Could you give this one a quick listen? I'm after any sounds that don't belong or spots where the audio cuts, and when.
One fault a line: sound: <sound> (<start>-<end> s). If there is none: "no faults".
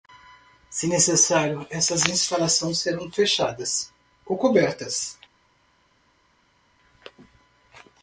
no faults